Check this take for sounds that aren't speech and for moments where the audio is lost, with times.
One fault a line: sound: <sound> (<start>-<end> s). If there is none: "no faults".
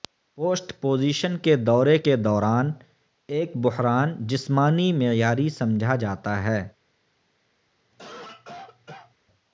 sound: cough (7.9-9.1 s)